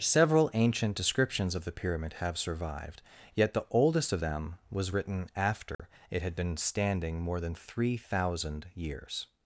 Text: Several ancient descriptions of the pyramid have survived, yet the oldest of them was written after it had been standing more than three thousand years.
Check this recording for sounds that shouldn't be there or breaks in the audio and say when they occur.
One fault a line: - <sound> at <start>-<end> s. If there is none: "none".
- dropout at 5.7-5.8 s